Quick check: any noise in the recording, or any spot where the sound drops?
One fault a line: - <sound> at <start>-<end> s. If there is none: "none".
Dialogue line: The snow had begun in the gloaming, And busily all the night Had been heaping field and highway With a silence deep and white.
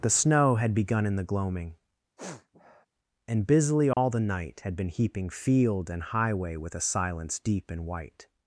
- sniff at 2.2-2.9 s
- dropout at 3.9-4.0 s